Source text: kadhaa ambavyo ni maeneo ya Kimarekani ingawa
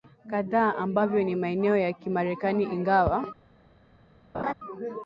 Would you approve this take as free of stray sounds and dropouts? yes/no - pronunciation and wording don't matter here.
no